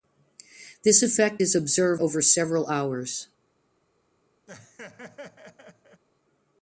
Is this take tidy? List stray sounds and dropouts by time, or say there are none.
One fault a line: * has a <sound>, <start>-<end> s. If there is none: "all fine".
* has a laugh, 4.5-6.0 s